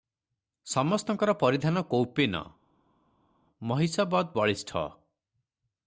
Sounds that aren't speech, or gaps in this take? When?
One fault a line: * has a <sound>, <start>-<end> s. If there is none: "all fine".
all fine